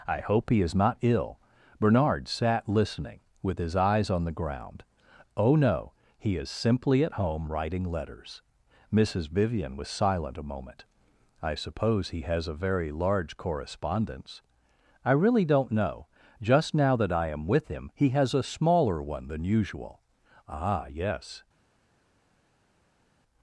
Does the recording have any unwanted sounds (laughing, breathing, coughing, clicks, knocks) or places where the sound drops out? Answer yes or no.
no